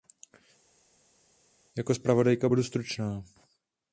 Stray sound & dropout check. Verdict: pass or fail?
pass